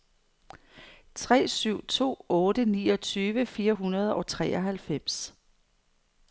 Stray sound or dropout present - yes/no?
no